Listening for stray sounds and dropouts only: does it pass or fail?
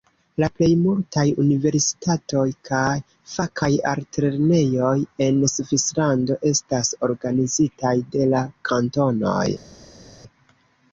pass